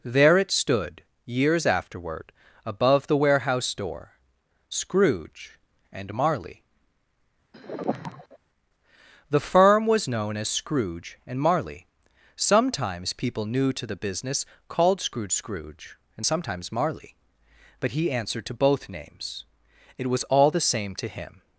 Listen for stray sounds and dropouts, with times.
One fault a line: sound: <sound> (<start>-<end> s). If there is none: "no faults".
sound: sigh (7.5-8.4 s)